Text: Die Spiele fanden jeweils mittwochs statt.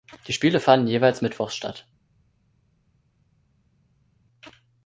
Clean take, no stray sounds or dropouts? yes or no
yes